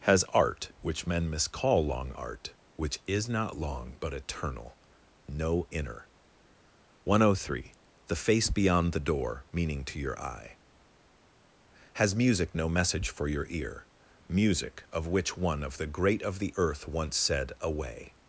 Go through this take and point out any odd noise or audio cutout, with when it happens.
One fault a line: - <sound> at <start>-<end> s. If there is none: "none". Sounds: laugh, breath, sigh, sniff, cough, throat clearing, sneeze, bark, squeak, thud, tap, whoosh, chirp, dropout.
none